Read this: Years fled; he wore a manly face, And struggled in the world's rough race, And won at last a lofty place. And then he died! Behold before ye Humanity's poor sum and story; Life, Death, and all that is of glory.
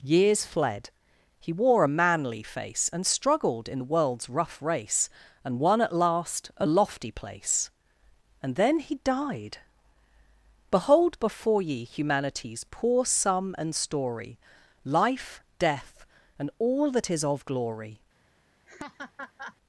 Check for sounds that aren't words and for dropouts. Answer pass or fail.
fail